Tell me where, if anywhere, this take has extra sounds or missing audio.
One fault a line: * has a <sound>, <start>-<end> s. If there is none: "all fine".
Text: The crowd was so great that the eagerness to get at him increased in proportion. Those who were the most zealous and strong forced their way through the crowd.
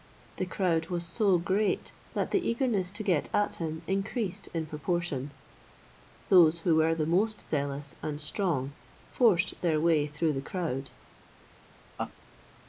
* has a laugh, 12.0-12.1 s